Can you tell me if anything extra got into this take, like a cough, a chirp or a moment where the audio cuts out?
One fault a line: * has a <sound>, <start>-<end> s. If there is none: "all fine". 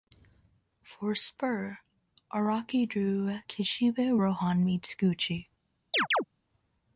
* has a chirp, 5.9-6.2 s